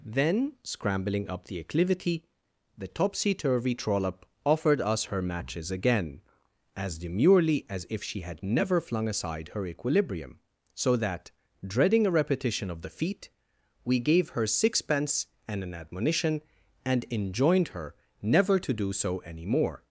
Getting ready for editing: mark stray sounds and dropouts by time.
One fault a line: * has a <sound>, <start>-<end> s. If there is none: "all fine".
all fine